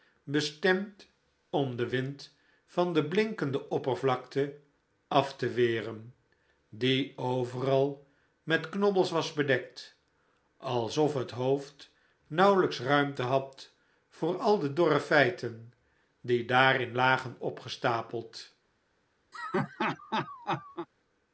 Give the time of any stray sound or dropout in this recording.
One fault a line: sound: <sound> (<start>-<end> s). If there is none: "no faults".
sound: laugh (19.3-20.9 s)